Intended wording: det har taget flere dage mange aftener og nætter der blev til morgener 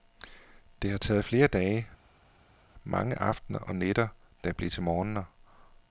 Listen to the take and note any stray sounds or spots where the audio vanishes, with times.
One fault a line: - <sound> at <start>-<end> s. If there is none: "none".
none